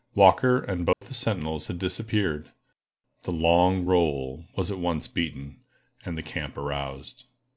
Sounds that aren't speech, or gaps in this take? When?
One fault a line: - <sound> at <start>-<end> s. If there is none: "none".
- dropout at 0.9-1.0 s